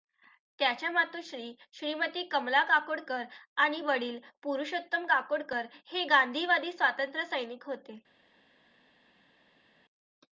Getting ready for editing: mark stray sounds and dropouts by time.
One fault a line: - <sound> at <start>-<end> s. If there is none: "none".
none